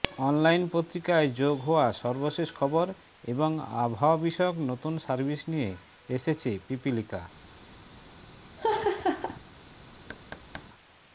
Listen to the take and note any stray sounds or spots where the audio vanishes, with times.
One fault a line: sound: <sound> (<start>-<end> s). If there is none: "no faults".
sound: laugh (8.6-9.4 s)
sound: thud (10.1-10.7 s)